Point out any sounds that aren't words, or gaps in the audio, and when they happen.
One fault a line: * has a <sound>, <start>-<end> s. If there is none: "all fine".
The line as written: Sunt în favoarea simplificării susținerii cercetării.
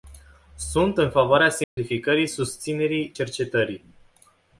* has a dropout, 1.6-1.8 s